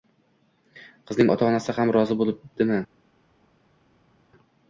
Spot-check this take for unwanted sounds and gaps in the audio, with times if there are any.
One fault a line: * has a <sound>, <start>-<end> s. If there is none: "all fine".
all fine